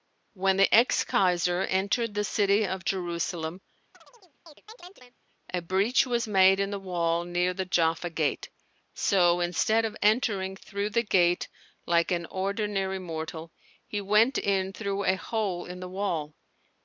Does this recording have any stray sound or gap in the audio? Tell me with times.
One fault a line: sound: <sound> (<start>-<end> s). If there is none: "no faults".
sound: chirp (3.9-5.2 s)